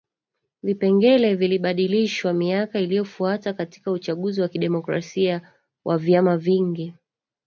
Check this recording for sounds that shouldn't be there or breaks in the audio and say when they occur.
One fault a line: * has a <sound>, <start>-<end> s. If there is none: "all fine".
all fine